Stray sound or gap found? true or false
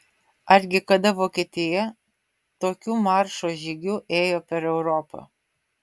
false